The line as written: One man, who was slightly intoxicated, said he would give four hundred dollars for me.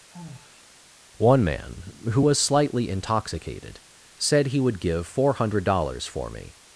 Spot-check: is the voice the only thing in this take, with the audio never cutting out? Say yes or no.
no